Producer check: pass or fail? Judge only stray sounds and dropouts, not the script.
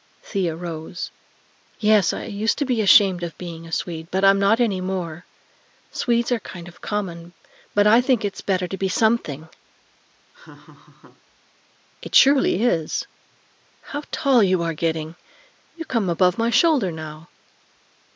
fail